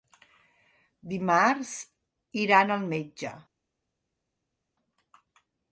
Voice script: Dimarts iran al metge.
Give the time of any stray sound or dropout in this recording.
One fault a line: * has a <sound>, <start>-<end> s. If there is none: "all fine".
all fine